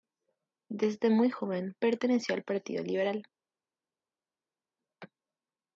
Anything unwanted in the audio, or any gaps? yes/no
no